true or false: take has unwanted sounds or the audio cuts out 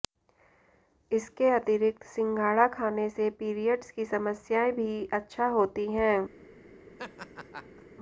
true